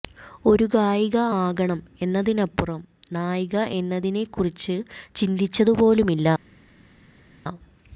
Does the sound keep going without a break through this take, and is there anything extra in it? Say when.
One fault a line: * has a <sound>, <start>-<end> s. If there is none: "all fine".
all fine